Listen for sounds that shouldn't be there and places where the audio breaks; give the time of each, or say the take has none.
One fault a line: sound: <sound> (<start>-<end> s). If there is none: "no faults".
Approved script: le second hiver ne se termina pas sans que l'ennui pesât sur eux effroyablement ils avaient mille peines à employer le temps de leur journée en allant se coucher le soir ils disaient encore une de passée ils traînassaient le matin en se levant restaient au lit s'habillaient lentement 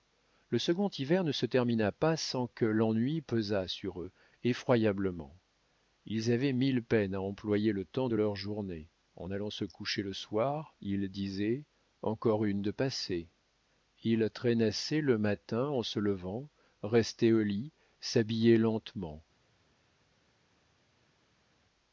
no faults